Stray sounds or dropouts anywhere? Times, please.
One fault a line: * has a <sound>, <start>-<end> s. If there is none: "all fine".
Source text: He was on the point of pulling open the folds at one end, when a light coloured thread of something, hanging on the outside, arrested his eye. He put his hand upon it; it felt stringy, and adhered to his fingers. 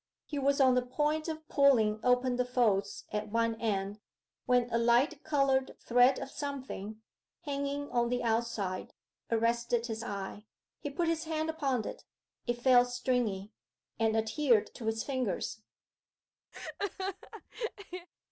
* has a laugh, 16.5-18.1 s